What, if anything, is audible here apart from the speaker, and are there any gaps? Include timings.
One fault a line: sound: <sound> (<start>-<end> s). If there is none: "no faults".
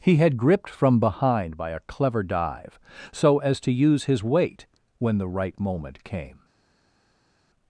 no faults